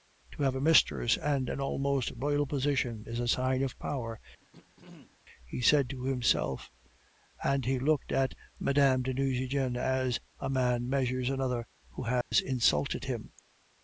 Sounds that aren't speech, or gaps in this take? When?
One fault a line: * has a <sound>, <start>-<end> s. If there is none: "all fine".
* has a throat clearing, 4.4-5.2 s
* has a dropout, 12.2-12.3 s